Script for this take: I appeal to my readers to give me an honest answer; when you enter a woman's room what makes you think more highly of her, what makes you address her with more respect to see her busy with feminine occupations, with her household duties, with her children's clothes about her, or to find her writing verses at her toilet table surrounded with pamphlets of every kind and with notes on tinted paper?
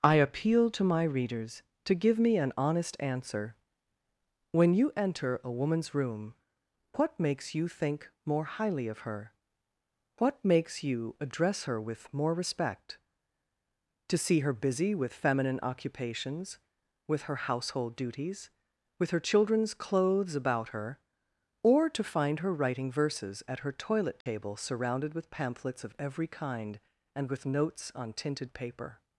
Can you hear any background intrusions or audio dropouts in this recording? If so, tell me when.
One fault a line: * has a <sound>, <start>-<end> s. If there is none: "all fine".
* has a dropout, 24.2-24.3 s